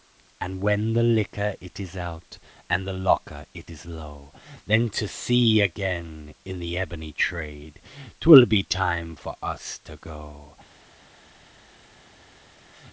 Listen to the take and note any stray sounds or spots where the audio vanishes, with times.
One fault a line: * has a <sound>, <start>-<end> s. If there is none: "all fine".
all fine